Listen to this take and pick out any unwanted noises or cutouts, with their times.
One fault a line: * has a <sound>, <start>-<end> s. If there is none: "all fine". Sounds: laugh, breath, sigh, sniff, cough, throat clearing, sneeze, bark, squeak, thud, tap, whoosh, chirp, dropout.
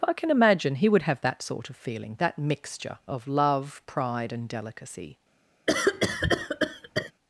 * has a cough, 5.7-7.1 s